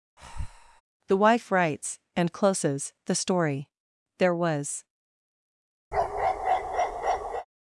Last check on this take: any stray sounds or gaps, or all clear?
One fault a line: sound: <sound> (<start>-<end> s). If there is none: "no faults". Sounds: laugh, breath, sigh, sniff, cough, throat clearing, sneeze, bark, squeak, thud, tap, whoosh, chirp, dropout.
sound: breath (0.2-0.8 s)
sound: bark (5.9-7.5 s)